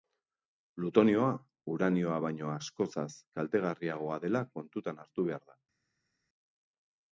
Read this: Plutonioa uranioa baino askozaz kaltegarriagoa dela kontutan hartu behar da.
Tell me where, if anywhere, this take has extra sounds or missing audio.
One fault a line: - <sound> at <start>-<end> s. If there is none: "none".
none